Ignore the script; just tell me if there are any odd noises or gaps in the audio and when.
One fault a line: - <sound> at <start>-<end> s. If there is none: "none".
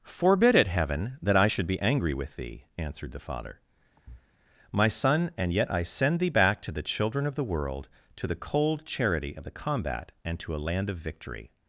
- thud at 4.0-4.3 s